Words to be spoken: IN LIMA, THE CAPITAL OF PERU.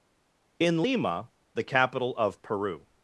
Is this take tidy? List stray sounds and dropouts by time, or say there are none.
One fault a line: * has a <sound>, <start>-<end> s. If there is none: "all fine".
all fine